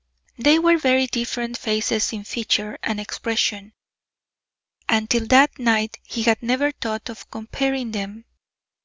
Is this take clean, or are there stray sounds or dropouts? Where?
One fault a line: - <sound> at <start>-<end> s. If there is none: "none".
none